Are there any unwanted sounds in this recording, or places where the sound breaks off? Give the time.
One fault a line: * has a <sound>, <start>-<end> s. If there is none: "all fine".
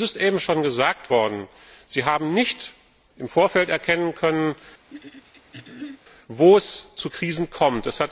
* has a throat clearing, 4.9-6.0 s